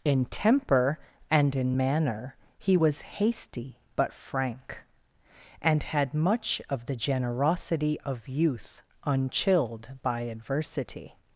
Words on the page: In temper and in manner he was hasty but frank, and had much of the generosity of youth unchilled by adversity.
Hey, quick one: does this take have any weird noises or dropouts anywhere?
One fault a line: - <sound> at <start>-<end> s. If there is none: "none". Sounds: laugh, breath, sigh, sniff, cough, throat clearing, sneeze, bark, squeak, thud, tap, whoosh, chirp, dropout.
none